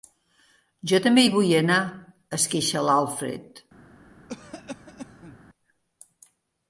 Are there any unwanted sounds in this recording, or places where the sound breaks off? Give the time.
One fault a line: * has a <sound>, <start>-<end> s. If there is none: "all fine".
* has a cough, 4.3-5.4 s